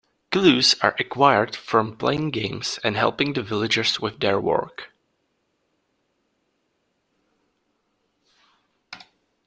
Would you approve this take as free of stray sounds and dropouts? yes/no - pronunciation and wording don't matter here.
yes